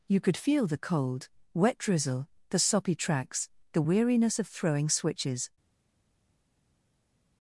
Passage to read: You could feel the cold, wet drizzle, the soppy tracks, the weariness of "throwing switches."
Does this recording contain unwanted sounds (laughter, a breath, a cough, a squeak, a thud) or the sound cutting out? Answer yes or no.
no